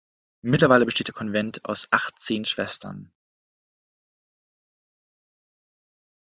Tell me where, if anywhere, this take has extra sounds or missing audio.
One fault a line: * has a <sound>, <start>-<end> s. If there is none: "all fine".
all fine